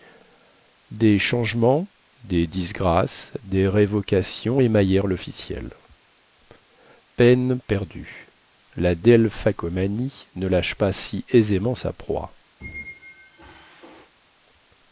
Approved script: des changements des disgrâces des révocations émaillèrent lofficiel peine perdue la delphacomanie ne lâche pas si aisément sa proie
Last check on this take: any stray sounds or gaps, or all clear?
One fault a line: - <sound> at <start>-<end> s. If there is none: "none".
- squeak at 12.6-14.1 s